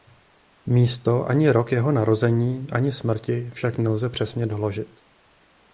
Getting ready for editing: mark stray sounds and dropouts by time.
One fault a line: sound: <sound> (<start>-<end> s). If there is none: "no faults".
no faults